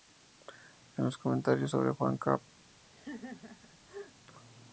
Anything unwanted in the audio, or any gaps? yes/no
yes